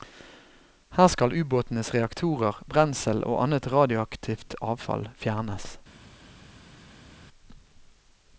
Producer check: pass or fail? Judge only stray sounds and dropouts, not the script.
pass